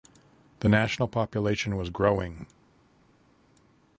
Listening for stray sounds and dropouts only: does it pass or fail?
pass